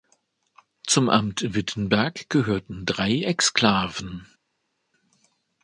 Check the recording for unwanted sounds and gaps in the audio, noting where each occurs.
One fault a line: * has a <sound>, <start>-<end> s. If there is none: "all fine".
all fine